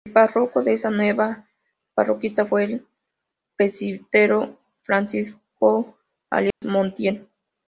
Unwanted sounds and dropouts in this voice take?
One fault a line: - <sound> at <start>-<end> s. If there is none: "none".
- dropout at 6.5-6.6 s